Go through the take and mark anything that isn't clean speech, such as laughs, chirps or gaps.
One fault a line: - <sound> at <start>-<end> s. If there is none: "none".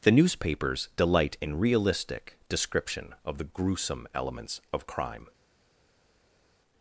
none